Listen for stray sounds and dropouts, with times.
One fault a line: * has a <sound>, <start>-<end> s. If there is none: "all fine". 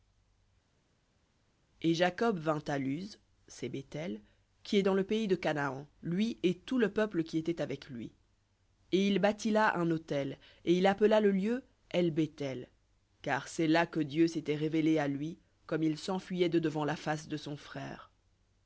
all fine